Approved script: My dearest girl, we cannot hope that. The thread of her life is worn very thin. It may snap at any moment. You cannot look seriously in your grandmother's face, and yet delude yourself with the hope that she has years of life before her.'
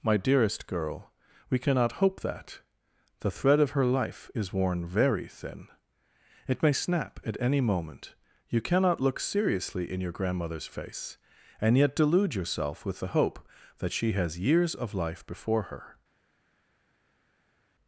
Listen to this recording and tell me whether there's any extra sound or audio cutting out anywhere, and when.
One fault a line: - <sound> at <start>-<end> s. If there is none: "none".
none